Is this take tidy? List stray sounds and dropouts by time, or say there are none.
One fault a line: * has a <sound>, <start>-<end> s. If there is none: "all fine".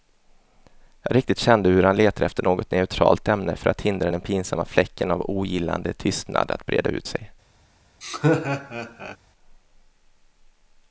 * has a laugh, 8.0-9.2 s